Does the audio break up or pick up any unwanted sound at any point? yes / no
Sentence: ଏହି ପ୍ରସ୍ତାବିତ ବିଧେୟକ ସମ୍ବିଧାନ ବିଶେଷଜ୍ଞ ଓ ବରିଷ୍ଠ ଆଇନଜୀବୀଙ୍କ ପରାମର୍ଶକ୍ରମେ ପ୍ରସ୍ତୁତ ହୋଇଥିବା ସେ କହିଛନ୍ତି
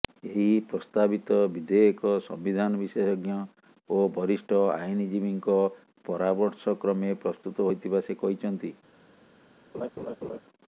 yes